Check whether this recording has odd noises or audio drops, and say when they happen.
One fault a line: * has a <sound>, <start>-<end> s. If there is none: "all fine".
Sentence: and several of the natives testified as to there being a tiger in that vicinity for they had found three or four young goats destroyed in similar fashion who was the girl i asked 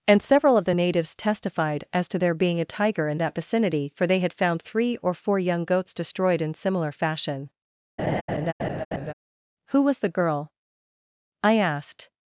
* has a laugh, 8.0-9.1 s